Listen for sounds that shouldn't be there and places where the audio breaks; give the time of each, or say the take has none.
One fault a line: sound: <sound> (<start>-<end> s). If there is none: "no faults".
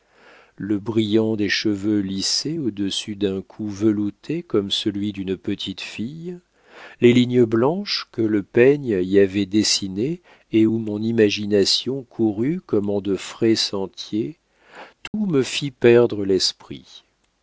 sound: dropout (15.1-15.1 s)